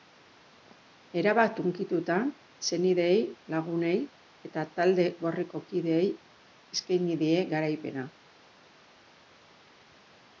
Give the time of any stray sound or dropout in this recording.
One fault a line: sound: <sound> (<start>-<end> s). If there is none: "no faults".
no faults